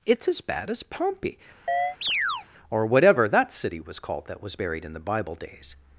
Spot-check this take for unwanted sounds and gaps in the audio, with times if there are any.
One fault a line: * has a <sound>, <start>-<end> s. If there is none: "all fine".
* has a chirp, 1.7-2.5 s